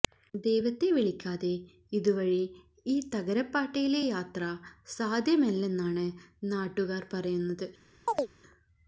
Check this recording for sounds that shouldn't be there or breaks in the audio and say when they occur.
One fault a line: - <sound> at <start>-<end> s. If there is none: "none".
- chirp at 8.1-8.3 s